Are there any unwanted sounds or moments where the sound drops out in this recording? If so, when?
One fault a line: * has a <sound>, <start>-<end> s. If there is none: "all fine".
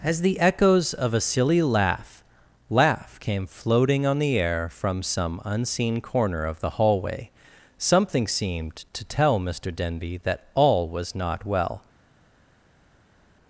all fine